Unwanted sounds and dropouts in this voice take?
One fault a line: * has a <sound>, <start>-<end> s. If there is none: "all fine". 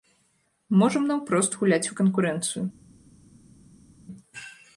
all fine